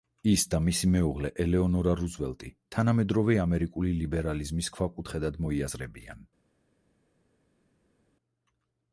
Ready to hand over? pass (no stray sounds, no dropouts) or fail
pass